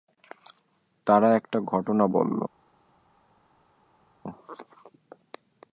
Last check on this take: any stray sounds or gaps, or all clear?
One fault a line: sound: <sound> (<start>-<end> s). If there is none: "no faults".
no faults